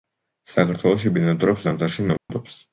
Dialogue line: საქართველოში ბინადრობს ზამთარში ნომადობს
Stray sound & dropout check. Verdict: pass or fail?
fail